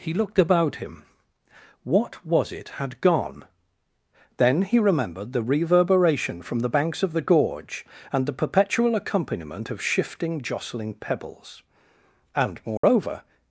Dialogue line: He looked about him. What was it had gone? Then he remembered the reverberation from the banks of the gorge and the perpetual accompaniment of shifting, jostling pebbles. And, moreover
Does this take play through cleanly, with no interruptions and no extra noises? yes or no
no